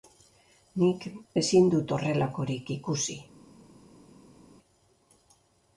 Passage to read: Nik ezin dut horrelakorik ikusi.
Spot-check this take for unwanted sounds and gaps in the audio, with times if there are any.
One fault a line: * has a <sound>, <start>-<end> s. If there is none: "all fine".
all fine